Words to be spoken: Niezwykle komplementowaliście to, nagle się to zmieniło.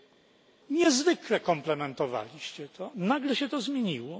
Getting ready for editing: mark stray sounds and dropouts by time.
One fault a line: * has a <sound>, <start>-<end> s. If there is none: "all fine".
all fine